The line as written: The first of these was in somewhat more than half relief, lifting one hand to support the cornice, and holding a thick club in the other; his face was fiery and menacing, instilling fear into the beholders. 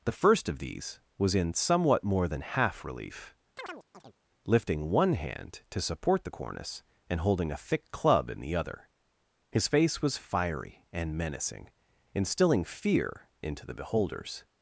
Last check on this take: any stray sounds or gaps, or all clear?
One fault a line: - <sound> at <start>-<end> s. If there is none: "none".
- chirp at 3.6-4.2 s